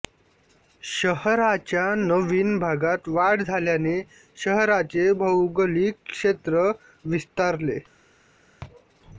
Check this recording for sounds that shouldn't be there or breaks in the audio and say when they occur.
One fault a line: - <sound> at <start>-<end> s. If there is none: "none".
none